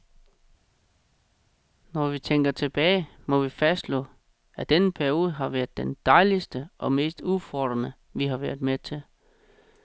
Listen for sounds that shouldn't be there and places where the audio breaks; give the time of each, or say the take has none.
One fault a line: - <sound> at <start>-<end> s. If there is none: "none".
none